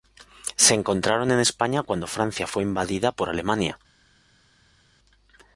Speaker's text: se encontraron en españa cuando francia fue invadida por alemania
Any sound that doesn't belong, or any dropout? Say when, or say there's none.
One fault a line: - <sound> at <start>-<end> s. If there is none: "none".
none